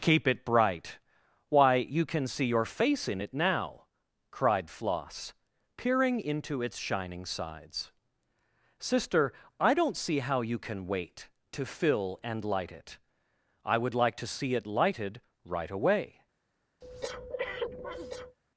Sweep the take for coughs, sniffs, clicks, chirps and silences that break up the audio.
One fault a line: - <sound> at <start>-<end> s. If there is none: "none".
- breath at 16.8-18.4 s